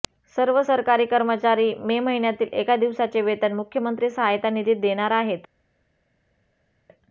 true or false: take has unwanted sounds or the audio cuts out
false